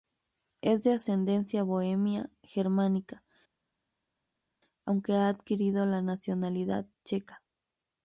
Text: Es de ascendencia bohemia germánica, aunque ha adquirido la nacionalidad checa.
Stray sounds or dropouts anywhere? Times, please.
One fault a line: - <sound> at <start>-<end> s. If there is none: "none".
none